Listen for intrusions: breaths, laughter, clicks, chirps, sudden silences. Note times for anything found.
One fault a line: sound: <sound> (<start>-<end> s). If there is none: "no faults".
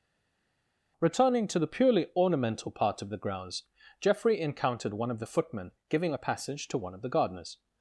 no faults